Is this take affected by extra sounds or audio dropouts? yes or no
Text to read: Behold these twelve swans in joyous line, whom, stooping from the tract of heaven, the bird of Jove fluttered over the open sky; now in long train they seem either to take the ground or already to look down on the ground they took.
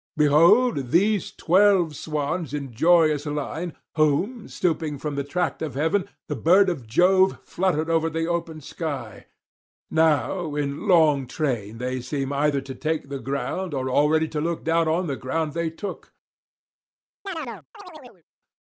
yes